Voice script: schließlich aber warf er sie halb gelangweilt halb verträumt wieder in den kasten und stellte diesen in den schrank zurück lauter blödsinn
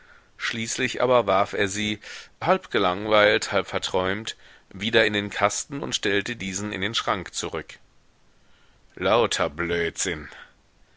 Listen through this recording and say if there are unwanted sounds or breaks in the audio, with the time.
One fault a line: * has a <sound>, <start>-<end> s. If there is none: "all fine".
all fine